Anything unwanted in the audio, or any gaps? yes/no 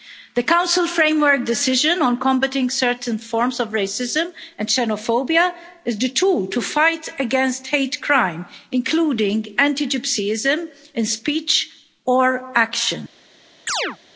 yes